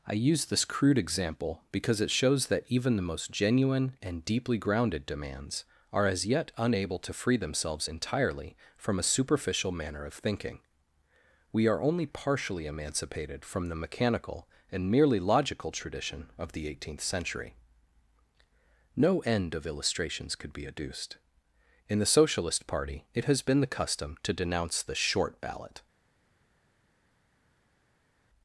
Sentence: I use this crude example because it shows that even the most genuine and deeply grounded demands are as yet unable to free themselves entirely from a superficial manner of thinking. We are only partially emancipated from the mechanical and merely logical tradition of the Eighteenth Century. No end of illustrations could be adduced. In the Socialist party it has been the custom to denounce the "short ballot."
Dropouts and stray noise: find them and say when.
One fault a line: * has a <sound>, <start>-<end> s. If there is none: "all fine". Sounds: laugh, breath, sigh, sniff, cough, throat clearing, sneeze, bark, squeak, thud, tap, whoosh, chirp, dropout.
all fine